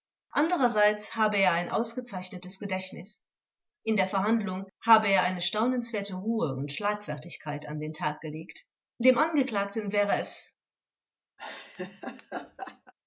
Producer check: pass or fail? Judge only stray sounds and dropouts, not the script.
fail